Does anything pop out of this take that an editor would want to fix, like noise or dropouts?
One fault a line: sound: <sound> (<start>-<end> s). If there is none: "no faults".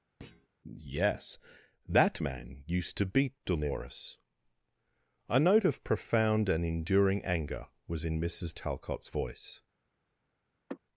sound: thud (0.2-0.5 s)
sound: sigh (10.7-10.8 s)